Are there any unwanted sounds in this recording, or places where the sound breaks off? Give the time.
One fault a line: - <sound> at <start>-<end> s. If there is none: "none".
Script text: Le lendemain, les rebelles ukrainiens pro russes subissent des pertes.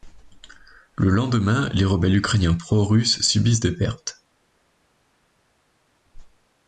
none